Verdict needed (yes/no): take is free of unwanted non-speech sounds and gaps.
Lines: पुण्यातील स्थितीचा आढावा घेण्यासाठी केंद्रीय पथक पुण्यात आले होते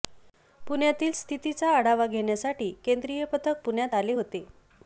yes